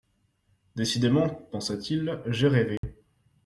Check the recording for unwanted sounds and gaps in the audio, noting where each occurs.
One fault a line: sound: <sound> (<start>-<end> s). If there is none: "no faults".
sound: dropout (2.8-2.8 s)